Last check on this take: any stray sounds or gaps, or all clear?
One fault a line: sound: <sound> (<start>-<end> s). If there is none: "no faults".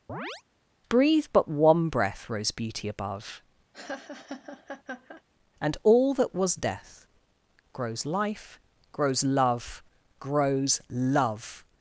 sound: chirp (0.1-0.4 s)
sound: laugh (3.7-5.2 s)